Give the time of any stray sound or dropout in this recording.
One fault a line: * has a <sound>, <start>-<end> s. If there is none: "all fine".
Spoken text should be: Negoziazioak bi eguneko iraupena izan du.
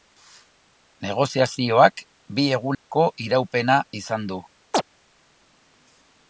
* has a dropout, 2.7-2.9 s
* has a chirp, 4.7-4.8 s